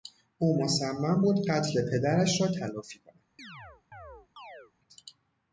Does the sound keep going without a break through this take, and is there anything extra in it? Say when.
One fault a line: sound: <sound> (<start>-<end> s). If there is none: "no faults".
sound: chirp (3.4-4.7 s)